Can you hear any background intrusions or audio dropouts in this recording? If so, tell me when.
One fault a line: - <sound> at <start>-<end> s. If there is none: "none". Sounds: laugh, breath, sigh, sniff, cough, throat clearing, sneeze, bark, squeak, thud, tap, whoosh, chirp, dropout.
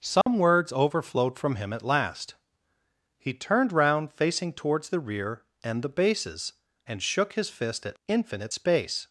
- dropout at 0.2-0.3 s